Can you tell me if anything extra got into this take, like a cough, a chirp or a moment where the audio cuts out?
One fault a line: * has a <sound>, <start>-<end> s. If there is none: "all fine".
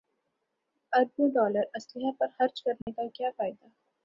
* has a dropout, 2.8-2.9 s